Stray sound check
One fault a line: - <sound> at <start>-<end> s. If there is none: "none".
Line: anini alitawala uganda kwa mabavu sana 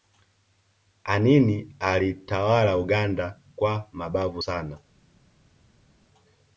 none